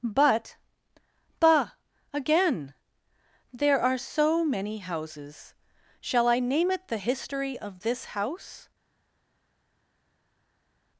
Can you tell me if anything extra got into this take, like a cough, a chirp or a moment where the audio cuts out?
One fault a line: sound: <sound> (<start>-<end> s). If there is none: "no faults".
no faults